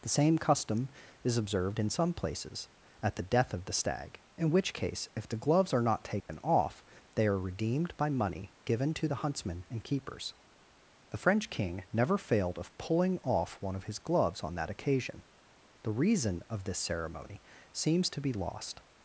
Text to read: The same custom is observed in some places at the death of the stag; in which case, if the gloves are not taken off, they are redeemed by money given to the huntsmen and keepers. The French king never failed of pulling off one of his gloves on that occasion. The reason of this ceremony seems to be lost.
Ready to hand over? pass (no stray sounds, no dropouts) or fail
fail